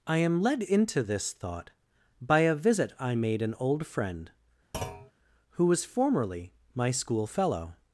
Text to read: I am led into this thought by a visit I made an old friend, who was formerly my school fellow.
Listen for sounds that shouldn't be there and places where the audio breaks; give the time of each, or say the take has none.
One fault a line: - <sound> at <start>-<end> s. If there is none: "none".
- thud at 4.7-5.1 s